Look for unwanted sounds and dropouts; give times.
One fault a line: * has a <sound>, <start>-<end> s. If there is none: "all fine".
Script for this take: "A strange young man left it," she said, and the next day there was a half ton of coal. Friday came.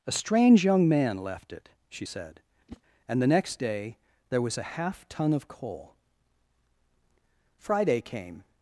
* has a whoosh, 2.7-2.8 s